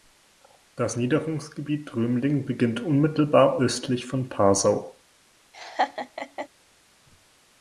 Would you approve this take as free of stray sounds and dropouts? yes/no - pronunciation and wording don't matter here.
no